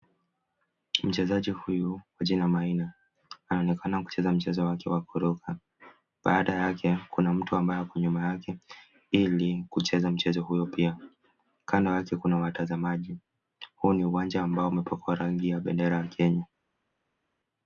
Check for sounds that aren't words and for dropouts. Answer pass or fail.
pass